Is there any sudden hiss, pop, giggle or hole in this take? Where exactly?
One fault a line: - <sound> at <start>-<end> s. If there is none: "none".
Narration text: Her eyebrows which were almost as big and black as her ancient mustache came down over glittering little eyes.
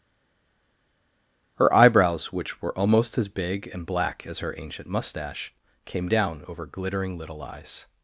none